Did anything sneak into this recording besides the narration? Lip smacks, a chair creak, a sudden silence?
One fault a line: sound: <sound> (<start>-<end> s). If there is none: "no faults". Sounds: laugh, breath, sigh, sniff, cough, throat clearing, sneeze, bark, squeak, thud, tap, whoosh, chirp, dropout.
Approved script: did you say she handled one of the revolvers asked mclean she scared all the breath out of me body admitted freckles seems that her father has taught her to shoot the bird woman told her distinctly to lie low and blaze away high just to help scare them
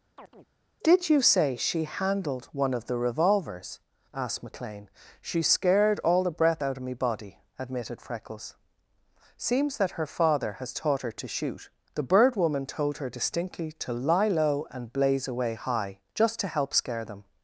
sound: chirp (0.2-0.5 s)